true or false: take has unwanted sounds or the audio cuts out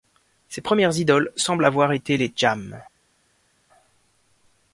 false